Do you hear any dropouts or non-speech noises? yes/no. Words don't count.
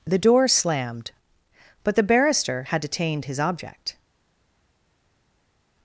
no